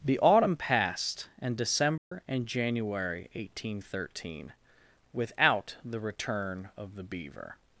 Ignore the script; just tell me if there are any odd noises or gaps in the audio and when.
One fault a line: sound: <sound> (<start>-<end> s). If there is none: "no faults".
sound: dropout (2.0-2.1 s)